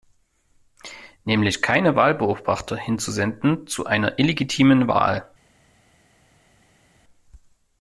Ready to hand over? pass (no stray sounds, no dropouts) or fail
pass